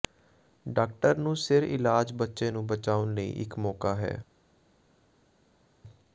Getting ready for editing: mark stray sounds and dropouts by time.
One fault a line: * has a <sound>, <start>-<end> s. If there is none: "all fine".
all fine